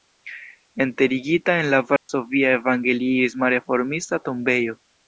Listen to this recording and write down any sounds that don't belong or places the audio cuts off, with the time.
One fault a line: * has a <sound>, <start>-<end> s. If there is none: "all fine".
* has a dropout, 2.0-2.1 s